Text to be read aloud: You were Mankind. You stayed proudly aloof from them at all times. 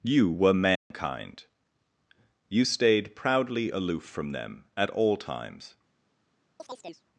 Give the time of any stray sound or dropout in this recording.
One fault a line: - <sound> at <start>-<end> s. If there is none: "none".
- dropout at 0.8-0.9 s
- chirp at 6.6-7.0 s